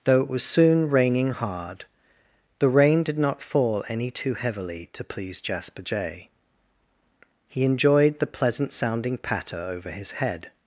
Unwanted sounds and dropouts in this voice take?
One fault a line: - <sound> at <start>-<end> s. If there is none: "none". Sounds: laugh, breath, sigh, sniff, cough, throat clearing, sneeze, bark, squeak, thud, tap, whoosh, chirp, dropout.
none